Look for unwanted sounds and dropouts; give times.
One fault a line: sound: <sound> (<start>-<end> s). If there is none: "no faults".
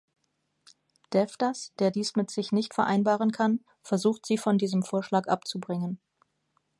no faults